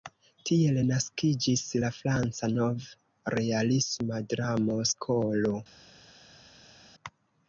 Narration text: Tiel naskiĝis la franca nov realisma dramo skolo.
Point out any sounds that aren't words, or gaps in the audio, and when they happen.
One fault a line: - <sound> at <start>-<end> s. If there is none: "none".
none